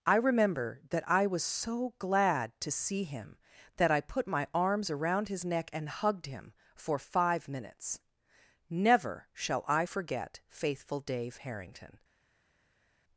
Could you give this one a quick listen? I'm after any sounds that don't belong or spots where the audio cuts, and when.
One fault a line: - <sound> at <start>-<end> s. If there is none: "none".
none